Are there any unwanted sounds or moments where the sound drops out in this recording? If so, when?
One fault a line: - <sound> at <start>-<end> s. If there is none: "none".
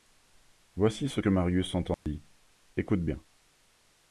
- dropout at 1.9-2.1 s